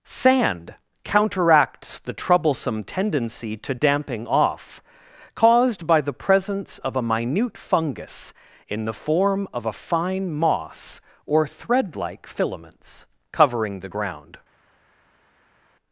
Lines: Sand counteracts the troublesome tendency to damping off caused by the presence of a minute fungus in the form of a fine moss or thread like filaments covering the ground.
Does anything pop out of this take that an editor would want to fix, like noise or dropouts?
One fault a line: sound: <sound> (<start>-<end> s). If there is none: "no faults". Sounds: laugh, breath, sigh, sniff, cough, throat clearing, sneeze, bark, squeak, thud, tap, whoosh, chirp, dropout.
no faults